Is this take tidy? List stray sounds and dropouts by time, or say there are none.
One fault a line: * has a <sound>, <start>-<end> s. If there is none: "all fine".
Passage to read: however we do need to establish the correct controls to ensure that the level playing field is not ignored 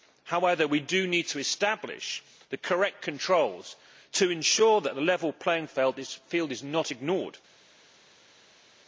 all fine